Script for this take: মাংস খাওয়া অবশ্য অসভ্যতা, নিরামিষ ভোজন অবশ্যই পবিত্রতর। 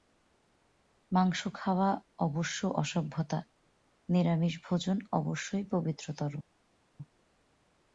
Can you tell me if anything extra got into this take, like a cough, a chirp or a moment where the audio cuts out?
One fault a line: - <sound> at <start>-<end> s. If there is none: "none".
none